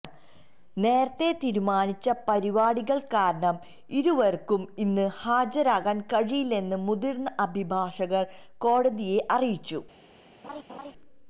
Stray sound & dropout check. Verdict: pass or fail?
fail